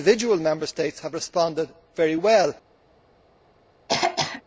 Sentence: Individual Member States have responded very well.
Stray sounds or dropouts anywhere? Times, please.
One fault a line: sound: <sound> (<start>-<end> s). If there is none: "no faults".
sound: throat clearing (3.9-4.4 s)